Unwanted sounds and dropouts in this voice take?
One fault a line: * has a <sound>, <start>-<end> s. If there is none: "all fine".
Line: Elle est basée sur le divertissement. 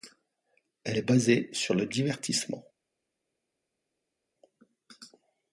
all fine